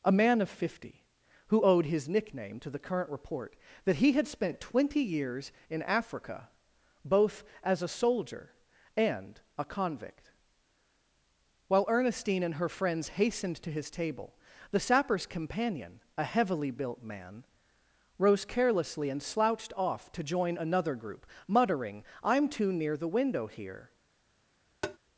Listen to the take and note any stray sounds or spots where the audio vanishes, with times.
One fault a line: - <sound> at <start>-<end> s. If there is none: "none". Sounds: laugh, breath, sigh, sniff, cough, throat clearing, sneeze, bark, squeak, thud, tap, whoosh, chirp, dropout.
- tap at 24.8-25.0 s